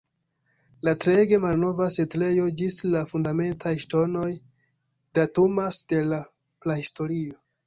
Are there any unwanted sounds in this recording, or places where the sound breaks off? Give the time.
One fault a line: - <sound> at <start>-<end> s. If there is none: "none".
none